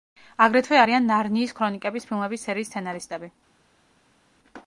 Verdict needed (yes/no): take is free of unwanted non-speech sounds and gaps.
yes